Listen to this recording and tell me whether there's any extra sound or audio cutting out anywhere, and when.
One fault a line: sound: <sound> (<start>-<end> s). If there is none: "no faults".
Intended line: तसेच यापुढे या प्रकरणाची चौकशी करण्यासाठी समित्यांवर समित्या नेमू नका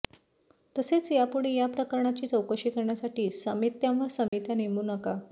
sound: dropout (4.3-4.3 s)